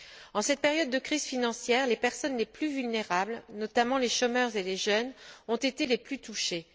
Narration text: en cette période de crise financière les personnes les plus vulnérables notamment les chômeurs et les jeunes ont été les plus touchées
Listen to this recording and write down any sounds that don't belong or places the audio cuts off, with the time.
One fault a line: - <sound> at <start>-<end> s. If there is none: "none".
none